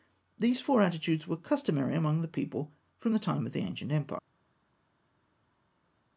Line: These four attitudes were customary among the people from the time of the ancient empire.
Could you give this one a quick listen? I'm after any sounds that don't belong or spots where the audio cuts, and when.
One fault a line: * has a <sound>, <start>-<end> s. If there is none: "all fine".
all fine